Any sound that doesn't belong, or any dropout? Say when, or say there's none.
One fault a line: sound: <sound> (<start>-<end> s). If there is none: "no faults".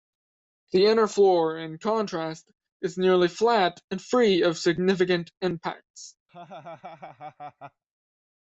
sound: laugh (6.3-7.8 s)